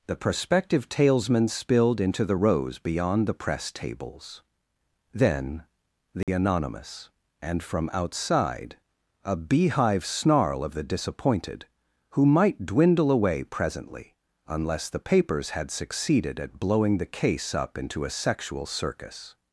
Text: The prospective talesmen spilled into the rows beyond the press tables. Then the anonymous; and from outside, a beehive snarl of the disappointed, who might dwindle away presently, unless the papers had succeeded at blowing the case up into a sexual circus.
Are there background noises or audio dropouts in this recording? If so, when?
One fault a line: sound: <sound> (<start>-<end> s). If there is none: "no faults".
sound: dropout (6.2-6.3 s)